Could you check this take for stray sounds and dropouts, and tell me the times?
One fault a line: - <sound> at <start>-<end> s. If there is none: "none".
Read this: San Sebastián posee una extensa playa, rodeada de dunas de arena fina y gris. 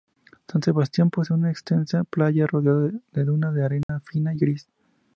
- dropout at 3.8-3.9 s